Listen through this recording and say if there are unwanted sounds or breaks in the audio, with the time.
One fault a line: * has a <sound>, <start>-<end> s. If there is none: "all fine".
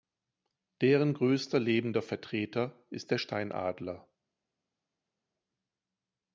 all fine